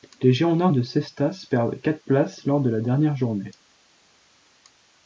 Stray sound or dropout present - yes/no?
no